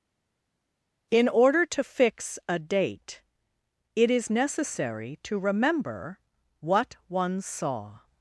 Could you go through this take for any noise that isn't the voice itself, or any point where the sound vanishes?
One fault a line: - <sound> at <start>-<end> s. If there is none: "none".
none